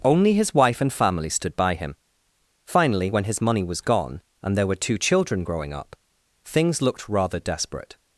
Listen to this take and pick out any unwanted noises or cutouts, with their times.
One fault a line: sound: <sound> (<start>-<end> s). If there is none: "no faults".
no faults